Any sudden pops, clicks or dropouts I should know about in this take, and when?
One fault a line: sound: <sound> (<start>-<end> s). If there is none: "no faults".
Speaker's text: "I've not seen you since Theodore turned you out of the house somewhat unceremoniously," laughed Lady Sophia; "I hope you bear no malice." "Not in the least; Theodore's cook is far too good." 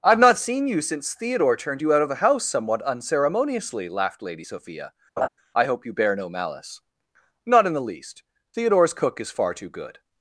sound: laugh (5.2-5.3 s)